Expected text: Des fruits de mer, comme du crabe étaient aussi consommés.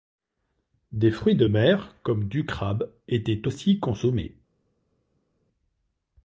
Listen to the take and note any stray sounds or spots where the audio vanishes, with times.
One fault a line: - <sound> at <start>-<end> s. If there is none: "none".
none